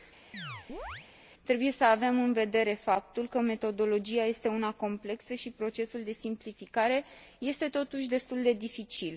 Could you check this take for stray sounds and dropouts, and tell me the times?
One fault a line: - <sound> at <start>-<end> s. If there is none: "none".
- chirp at 0.3-1.1 s